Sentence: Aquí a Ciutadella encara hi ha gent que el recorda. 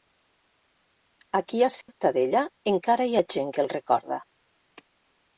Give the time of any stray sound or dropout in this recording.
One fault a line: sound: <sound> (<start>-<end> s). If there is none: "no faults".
sound: dropout (1.8-1.9 s)